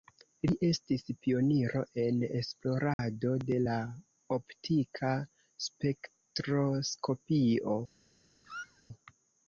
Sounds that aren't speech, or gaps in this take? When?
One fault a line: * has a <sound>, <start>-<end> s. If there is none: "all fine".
* has a dropout, 2.9-3.0 s
* has a squeak, 8.4-8.8 s